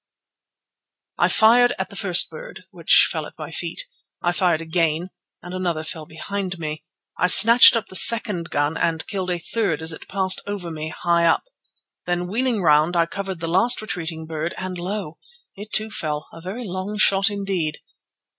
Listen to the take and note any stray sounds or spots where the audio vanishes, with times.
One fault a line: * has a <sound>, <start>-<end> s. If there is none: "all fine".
all fine